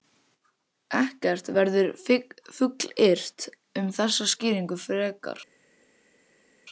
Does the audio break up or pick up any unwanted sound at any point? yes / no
no